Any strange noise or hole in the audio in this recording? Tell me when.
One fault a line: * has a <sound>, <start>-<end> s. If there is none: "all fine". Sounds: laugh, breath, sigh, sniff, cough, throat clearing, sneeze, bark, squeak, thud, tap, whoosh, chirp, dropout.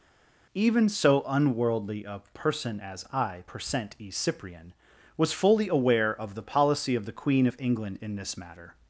all fine